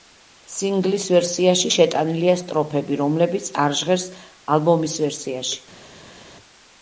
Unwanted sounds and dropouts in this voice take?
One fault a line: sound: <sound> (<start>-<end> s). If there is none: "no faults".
no faults